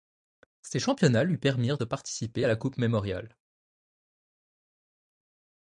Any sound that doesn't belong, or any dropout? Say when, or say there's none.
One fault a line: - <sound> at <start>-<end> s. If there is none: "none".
none